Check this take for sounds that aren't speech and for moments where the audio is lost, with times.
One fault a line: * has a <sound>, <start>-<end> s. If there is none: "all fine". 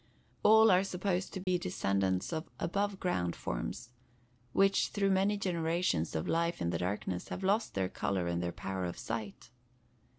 * has a dropout, 1.4-1.5 s